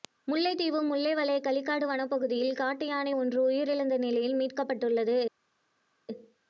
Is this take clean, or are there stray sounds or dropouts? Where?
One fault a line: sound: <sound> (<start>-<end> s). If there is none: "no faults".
no faults